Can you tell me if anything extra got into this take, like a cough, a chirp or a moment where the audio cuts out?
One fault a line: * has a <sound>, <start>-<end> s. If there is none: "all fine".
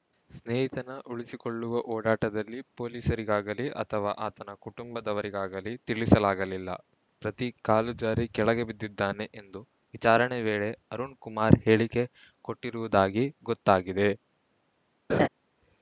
* has a laugh, 15.1-15.3 s